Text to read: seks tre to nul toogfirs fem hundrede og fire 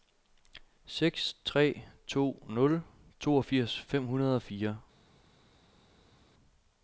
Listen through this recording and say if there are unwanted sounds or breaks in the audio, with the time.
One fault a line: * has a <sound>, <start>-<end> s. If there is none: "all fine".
all fine